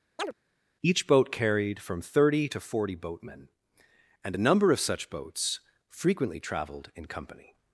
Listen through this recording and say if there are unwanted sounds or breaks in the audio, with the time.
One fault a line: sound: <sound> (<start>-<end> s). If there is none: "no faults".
sound: chirp (0.2-0.3 s)